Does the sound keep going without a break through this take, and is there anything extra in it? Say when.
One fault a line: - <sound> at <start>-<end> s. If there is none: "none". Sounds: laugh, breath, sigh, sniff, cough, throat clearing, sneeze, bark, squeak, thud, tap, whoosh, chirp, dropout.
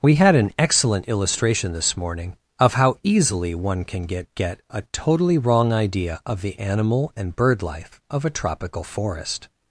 none